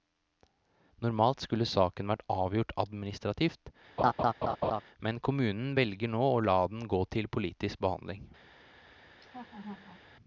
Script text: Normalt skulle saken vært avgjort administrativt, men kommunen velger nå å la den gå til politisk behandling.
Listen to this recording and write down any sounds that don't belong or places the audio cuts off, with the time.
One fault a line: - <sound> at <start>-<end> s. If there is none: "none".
- laugh at 4.0-4.8 s
- laugh at 9.2-10.0 s